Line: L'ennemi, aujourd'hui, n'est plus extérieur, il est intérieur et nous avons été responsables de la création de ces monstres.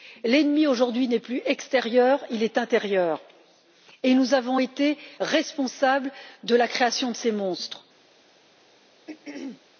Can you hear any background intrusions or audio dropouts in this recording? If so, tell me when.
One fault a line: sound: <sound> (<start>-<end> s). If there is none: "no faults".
sound: throat clearing (9.1-9.6 s)